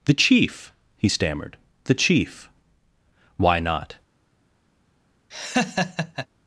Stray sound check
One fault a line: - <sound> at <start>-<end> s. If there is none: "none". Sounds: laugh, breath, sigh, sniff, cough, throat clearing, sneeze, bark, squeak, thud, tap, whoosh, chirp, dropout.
- laugh at 5.3-6.3 s